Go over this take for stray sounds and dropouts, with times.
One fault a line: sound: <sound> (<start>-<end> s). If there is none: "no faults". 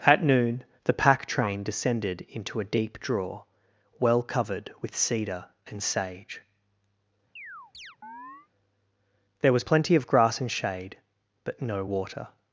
sound: chirp (7.4-8.5 s)